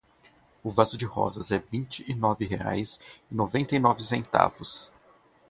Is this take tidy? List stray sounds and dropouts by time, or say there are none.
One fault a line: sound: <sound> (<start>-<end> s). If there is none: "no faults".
no faults